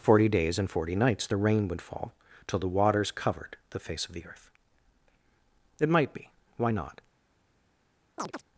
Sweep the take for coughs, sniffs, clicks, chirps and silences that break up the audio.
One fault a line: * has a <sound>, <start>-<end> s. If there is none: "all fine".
* has a chirp, 8.2-8.4 s